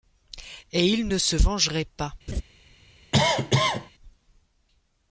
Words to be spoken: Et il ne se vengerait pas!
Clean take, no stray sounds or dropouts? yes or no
no